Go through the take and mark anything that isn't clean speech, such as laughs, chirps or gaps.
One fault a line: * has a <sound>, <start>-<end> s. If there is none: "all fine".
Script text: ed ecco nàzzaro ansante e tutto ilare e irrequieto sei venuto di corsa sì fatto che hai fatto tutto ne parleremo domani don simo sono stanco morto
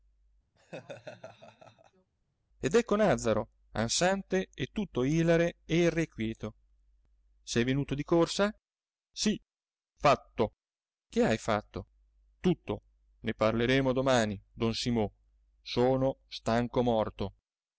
* has a laugh, 0.6-2.1 s